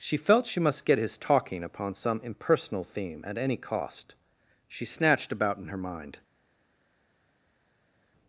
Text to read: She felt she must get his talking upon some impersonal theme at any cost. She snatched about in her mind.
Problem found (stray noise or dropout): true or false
false